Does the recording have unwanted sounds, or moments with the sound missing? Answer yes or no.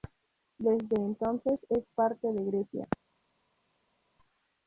no